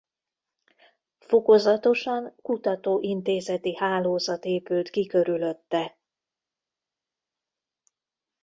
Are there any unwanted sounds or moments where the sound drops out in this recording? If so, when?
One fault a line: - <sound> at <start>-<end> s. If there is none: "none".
none